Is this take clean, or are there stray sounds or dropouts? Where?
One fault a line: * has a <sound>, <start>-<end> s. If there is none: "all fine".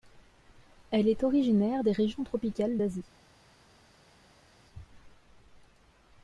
all fine